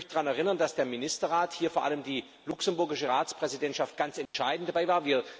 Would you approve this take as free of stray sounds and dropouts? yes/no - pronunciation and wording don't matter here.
no